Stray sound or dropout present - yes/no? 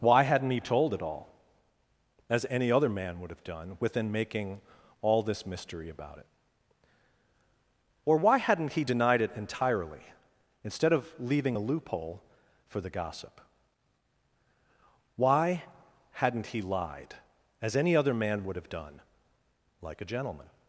no